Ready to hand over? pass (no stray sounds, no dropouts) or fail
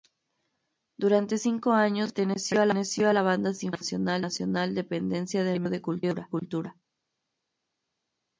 pass